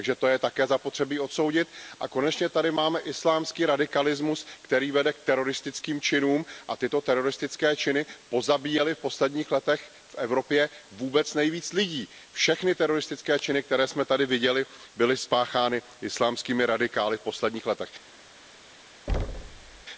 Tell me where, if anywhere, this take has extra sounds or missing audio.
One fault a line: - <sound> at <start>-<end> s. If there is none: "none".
- thud at 19.1-19.8 s